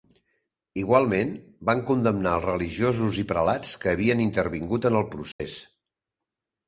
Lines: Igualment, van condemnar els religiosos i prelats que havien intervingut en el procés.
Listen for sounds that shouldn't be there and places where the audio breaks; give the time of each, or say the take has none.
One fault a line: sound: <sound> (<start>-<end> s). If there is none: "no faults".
sound: dropout (5.3-5.4 s)